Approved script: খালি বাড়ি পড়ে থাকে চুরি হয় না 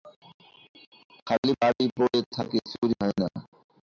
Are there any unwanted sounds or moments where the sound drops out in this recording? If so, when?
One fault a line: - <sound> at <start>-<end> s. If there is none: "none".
none